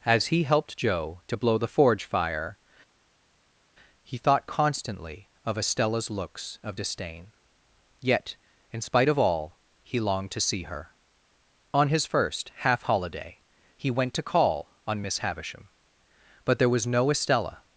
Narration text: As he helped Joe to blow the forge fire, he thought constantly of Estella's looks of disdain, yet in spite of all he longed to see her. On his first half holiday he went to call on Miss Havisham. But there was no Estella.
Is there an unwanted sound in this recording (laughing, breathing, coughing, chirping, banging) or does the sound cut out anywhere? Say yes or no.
no